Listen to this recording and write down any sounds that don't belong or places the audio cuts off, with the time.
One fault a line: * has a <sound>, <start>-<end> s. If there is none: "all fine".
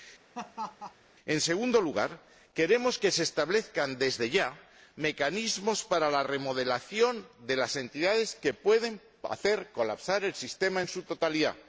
* has a laugh, 0.3-0.9 s